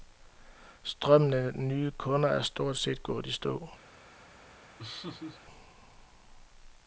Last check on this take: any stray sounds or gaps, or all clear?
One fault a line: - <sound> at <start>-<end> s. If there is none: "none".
- laugh at 4.8-5.4 s